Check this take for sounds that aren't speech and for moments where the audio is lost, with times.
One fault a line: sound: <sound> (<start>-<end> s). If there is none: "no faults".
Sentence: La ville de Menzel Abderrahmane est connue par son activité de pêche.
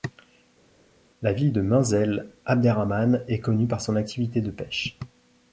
no faults